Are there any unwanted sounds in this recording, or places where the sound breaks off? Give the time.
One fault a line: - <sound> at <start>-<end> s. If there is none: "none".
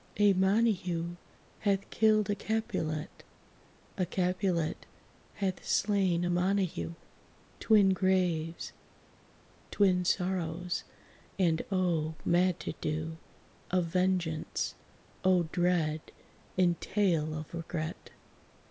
none